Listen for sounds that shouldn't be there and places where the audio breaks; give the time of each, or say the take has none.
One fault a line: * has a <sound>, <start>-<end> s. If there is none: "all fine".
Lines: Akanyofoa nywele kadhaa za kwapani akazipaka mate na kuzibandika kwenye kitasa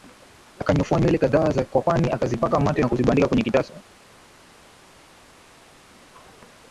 all fine